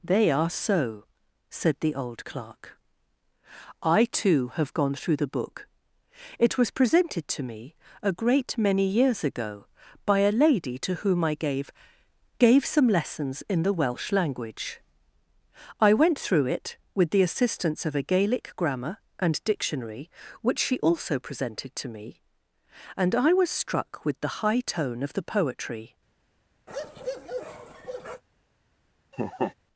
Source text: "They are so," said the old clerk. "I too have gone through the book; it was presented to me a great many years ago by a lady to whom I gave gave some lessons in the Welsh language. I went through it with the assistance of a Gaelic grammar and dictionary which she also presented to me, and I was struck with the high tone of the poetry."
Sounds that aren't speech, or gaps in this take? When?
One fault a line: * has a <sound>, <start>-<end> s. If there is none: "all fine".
* has a bark, 26.7-28.2 s
* has a laugh, 29.1-29.5 s